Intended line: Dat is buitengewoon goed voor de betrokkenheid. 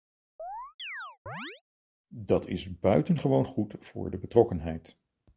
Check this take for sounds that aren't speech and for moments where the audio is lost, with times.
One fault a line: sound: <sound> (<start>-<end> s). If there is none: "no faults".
sound: chirp (0.4-1.6 s)